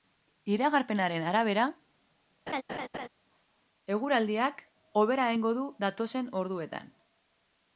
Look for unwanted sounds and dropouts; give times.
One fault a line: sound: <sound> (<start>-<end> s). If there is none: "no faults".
sound: laugh (2.5-3.1 s)